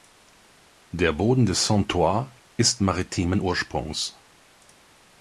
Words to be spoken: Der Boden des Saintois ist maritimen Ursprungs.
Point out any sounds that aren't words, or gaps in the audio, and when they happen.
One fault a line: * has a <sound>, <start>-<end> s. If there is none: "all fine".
all fine